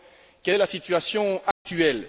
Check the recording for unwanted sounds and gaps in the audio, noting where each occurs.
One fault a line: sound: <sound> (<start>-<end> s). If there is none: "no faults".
sound: dropout (1.5-1.7 s)